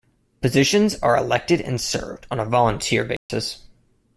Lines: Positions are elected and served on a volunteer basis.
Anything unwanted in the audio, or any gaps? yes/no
yes